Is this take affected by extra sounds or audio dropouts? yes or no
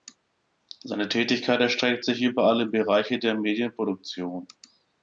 no